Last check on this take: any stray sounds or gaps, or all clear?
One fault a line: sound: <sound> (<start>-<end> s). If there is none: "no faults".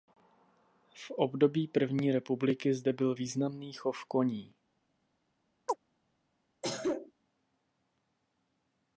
sound: chirp (5.7-5.8 s)
sound: cough (6.6-7.1 s)